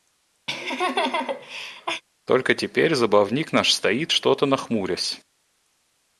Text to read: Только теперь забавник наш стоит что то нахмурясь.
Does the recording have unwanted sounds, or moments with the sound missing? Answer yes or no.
yes